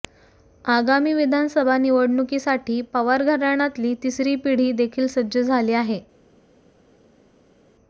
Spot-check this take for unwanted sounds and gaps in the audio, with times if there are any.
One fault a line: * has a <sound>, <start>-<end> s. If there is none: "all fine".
all fine